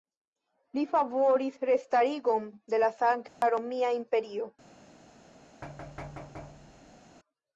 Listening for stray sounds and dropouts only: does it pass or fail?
fail